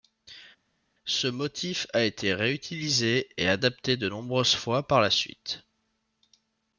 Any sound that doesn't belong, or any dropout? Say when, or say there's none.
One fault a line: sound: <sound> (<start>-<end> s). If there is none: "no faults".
no faults